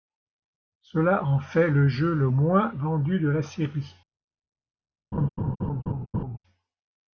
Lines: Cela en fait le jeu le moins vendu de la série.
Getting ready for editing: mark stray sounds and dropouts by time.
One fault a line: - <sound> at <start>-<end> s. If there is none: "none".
- laugh at 5.1-6.4 s